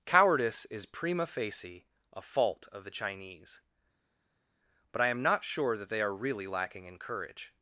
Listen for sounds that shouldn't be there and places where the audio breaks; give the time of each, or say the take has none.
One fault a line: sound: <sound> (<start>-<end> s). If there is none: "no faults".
no faults